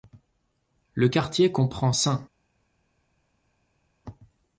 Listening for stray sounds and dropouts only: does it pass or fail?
pass